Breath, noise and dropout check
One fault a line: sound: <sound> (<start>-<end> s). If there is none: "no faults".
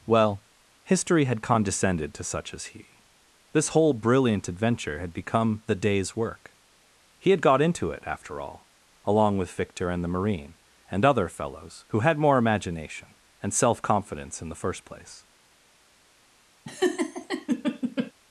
sound: laugh (16.6-18.1 s)